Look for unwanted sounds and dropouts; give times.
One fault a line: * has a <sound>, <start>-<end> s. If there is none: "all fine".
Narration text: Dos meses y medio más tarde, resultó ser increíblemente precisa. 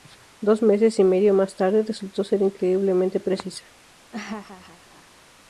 * has a laugh, 4.1-5.2 s